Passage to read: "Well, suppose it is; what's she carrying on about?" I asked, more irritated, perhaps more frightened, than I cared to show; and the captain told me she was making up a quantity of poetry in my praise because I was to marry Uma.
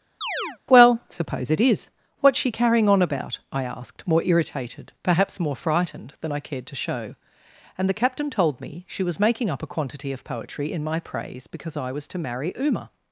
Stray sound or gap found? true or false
true